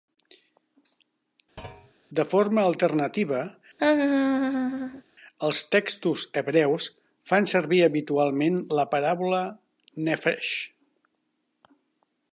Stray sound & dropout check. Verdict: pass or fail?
fail